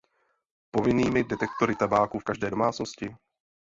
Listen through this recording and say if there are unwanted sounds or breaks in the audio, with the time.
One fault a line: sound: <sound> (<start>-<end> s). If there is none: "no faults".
no faults